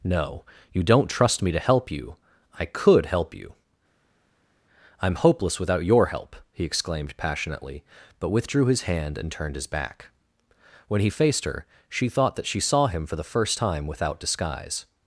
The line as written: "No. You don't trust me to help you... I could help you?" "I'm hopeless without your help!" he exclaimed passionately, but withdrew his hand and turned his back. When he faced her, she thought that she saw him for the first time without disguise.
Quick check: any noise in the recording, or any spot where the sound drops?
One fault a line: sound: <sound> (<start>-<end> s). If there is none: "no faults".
no faults